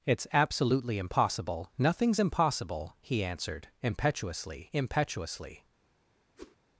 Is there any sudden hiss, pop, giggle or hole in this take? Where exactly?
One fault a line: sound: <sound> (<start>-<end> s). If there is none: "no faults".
sound: whoosh (6.4-6.6 s)